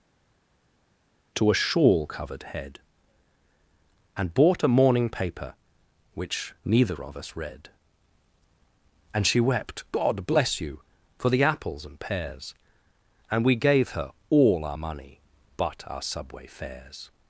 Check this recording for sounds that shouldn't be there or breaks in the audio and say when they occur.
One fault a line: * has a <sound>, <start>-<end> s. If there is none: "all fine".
all fine